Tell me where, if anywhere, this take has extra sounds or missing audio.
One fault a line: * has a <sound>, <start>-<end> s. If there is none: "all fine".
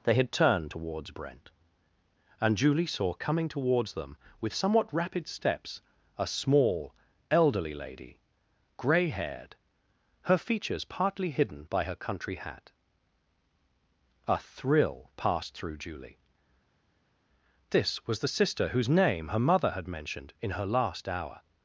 all fine